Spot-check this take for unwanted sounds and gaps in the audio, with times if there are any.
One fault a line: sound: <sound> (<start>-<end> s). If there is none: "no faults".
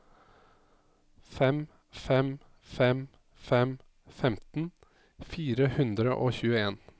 no faults